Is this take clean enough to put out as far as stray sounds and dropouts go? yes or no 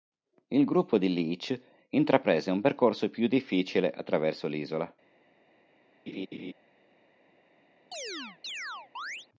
no